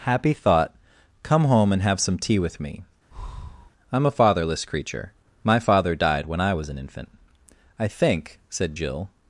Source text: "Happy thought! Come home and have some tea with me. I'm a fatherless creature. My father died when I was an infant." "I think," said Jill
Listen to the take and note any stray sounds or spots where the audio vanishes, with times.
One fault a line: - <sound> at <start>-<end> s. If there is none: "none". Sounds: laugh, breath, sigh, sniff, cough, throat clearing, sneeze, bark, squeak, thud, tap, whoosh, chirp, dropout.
- breath at 3.1-3.7 s